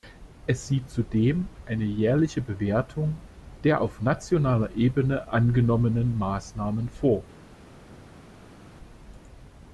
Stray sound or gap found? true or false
false